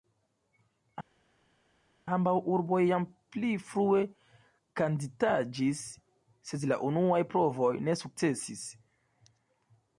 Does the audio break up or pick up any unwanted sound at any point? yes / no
no